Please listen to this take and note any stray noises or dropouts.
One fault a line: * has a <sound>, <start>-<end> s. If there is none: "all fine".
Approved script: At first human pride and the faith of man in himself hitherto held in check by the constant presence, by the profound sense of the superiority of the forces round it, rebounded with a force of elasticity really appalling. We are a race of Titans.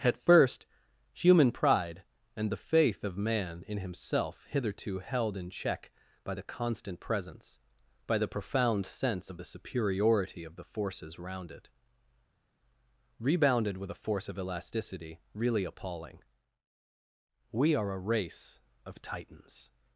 all fine